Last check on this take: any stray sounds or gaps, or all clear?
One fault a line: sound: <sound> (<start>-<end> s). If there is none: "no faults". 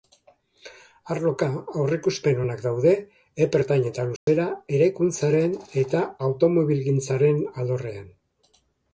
sound: dropout (4.2-4.3 s)